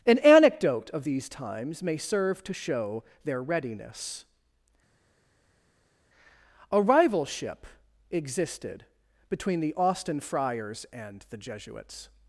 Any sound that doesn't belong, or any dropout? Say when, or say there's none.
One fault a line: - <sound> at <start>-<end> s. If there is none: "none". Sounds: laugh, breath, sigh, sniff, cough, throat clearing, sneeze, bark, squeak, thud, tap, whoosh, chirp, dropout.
none